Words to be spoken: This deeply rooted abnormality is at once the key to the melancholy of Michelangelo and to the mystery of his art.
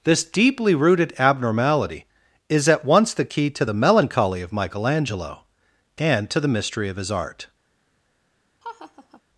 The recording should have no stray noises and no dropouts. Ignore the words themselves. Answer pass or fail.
fail